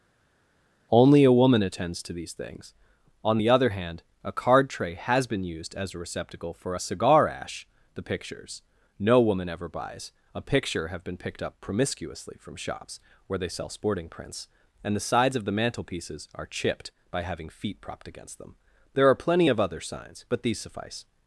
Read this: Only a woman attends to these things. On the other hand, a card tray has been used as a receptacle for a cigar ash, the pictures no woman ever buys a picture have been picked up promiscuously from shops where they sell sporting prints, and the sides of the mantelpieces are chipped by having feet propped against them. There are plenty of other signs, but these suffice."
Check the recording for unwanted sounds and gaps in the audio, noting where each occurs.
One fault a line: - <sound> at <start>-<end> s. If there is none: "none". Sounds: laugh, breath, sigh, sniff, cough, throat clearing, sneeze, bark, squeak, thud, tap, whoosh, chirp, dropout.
none